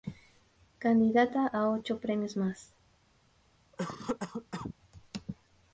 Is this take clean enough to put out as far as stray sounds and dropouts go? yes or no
no